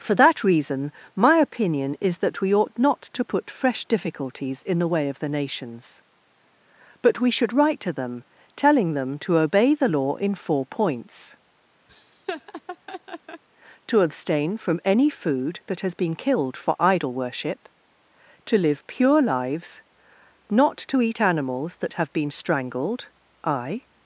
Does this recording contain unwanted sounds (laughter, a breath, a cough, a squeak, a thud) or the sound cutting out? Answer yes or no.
yes